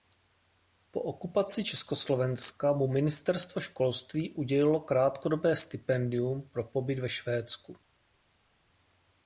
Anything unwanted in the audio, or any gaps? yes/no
no